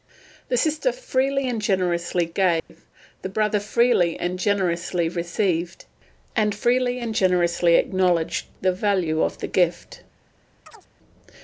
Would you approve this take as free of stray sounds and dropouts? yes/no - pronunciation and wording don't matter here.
no